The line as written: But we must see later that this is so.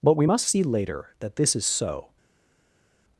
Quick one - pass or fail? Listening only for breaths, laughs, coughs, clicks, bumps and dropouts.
pass